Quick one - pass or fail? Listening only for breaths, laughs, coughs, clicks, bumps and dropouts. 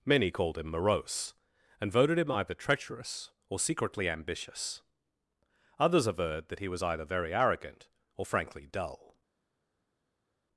pass